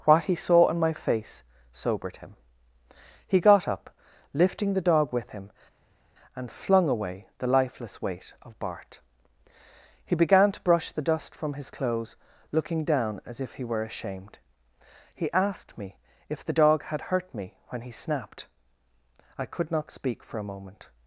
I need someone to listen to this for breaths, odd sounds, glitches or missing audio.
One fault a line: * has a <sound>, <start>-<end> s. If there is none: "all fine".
all fine